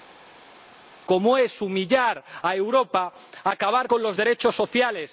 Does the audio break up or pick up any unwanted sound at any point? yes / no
no